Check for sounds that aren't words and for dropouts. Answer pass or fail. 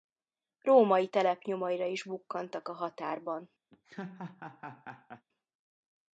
fail